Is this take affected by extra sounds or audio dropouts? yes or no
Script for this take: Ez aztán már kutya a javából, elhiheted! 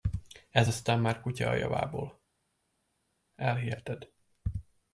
no